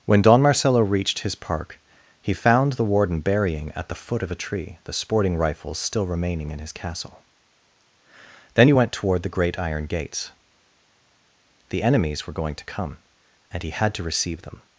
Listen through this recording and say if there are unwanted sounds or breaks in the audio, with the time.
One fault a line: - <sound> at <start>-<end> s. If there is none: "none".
none